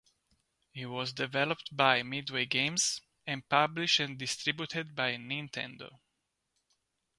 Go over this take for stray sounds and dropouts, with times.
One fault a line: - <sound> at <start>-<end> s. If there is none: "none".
none